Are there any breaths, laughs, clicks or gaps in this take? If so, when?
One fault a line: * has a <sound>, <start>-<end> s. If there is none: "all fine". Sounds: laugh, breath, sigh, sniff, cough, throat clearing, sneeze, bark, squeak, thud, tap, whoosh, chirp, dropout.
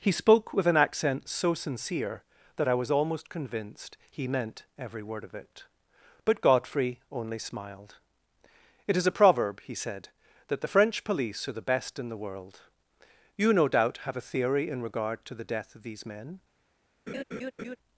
* has a laugh, 17.1-17.8 s